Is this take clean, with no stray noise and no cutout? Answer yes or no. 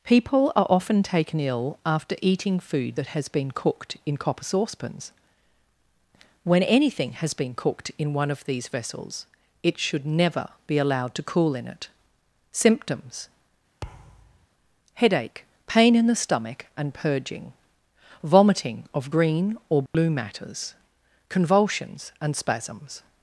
no